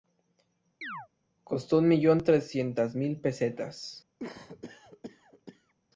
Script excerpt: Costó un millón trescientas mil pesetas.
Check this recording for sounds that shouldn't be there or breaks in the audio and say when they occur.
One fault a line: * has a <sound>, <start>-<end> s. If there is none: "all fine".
* has a chirp, 0.8-1.1 s
* has a cough, 4.2-5.7 s